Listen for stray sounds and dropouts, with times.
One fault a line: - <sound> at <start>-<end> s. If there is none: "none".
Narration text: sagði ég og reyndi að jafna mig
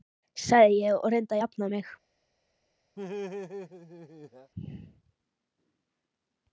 - laugh at 3.0-4.5 s